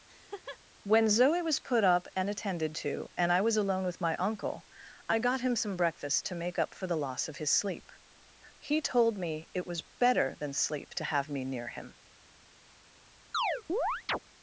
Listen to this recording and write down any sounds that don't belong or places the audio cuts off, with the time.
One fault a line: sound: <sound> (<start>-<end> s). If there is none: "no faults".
sound: laugh (0.1-0.6 s)
sound: chirp (13.3-14.2 s)